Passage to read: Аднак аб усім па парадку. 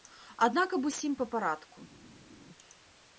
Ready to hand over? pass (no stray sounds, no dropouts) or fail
pass